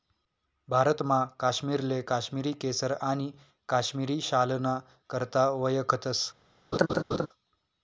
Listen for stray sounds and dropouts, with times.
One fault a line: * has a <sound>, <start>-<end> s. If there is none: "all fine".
* has a laugh, 6.7-7.3 s